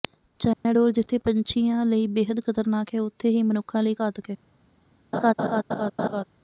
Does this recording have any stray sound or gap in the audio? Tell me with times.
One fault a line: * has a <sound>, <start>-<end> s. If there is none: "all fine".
* has a dropout, 0.5-0.7 s
* has a laugh, 5.1-6.2 s